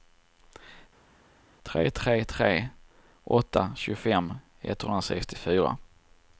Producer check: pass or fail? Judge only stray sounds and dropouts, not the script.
pass